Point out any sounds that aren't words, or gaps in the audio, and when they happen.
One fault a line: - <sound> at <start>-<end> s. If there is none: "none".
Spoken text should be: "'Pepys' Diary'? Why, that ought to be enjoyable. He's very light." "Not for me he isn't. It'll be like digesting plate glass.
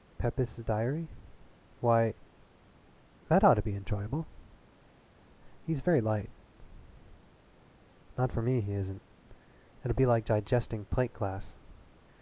none